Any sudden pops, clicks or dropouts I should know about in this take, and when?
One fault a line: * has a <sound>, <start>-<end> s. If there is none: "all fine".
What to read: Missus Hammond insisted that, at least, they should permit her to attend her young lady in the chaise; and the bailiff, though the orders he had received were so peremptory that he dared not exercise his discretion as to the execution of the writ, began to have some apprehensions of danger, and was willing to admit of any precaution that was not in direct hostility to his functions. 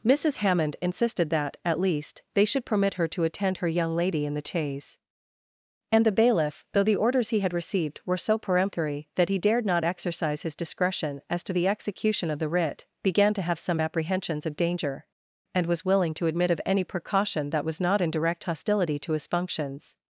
all fine